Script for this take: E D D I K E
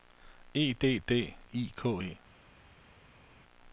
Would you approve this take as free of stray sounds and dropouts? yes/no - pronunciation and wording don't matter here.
yes